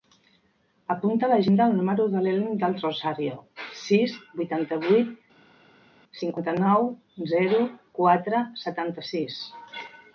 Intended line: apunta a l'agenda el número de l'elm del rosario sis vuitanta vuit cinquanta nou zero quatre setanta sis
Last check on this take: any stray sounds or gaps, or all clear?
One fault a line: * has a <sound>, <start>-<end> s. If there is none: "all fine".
all fine